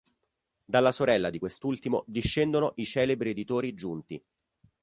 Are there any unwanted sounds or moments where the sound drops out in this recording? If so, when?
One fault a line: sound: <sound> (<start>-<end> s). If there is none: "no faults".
no faults